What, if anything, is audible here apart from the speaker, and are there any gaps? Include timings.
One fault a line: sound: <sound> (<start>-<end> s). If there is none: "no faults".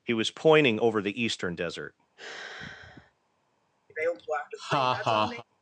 sound: sigh (2.2-3.1 s)
sound: laugh (3.9-5.4 s)